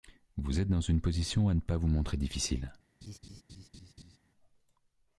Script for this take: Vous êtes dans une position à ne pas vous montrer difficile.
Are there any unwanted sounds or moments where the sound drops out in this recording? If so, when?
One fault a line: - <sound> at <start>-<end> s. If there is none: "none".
- laugh at 3.0-4.2 s